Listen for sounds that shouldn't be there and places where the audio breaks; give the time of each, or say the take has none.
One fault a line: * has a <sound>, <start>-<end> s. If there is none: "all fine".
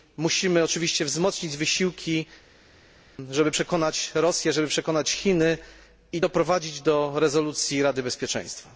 all fine